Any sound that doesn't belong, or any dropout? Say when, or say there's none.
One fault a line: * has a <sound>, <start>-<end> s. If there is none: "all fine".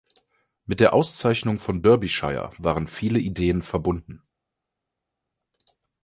all fine